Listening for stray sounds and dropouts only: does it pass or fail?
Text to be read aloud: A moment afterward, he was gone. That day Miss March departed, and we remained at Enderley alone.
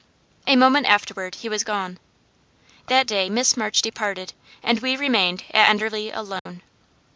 fail